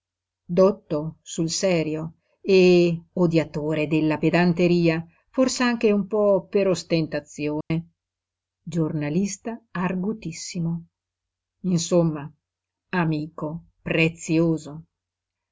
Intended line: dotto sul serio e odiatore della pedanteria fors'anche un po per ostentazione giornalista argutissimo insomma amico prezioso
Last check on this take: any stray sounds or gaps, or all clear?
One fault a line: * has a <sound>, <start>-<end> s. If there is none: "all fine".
* has a dropout, 7.6-7.7 s